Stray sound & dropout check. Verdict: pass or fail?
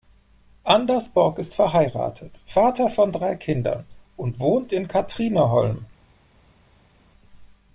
pass